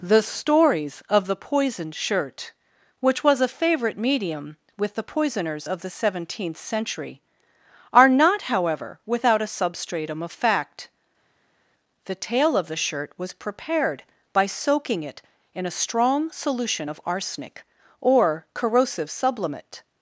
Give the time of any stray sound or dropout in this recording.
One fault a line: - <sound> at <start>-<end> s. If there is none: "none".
none